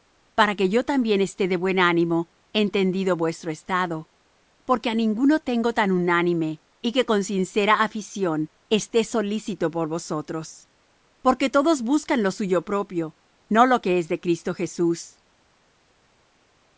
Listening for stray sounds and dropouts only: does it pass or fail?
pass